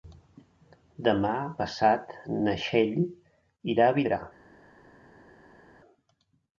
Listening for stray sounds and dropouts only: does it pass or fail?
pass